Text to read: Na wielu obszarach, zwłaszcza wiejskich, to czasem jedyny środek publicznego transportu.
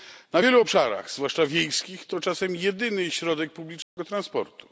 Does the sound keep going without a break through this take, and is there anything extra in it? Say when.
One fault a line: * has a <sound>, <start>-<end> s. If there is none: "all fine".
* has a dropout, 3.8-4.0 s